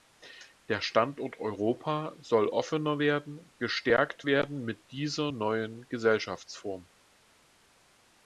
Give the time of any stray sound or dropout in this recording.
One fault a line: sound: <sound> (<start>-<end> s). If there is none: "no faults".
no faults